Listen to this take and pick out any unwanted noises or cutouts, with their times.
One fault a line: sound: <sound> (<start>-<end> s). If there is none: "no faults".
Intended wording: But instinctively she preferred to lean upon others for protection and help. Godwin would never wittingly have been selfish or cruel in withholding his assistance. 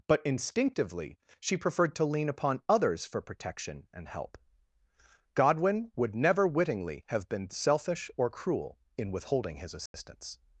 sound: dropout (9.9-9.9 s)